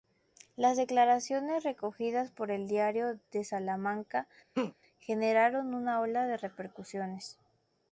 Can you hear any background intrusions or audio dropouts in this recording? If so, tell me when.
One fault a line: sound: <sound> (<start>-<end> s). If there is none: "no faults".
sound: laugh (4.5-4.7 s)